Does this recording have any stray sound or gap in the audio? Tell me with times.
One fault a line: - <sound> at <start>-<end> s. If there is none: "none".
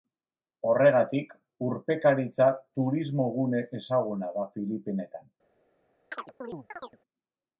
- chirp at 6.1-7.0 s